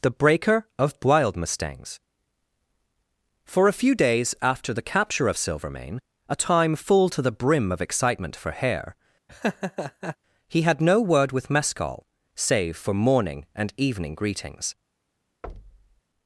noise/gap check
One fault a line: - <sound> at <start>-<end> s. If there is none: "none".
- laugh at 9.3-10.2 s
- thud at 15.4-16.0 s